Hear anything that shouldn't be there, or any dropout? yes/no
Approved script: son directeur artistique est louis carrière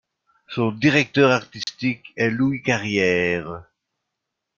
yes